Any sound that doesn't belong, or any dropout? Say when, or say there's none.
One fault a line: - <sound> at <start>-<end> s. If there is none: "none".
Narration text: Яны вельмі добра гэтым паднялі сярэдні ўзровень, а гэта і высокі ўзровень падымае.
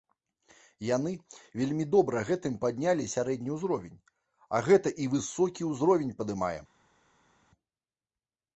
none